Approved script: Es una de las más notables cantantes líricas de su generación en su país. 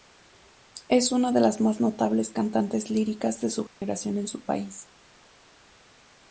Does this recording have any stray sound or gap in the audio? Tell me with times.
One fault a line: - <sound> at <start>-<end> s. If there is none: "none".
- dropout at 3.7-3.8 s